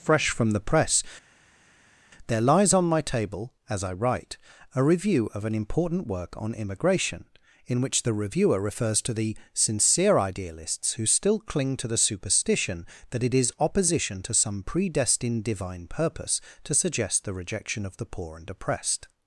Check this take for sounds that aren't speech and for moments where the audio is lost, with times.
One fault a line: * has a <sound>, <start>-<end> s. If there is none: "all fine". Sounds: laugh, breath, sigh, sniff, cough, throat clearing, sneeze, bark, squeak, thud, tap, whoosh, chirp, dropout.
all fine